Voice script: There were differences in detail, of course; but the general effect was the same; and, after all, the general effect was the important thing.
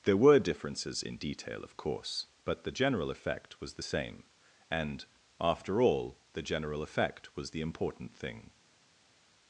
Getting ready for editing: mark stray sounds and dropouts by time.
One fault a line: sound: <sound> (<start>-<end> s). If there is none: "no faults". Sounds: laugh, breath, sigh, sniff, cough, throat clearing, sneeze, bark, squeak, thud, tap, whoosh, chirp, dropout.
no faults